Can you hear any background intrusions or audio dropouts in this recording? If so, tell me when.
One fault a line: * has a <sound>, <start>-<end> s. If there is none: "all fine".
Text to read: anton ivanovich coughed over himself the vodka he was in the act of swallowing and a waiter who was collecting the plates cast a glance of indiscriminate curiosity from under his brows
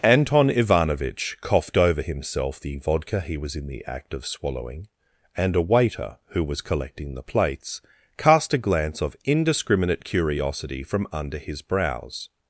all fine